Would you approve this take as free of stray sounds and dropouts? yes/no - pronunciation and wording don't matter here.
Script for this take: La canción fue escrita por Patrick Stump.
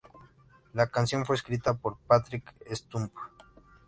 yes